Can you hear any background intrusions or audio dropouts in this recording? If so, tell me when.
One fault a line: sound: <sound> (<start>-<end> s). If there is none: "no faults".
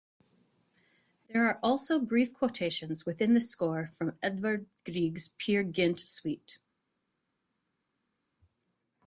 no faults